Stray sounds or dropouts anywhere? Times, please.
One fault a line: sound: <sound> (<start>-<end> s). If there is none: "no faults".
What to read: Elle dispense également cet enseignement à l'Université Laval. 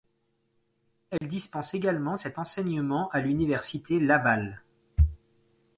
sound: dropout (1.2-1.2 s)